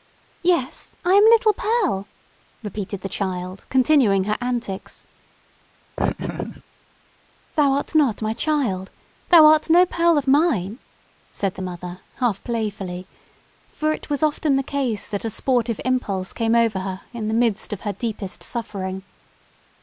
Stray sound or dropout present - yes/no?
yes